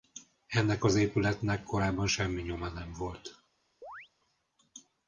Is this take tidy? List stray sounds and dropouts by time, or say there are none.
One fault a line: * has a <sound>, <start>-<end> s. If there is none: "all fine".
* has a chirp, 3.8-4.1 s